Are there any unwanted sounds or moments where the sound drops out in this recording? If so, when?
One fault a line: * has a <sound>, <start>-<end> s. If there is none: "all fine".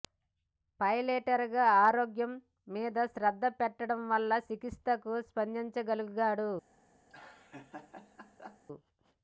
* has a laugh, 7.1-8.6 s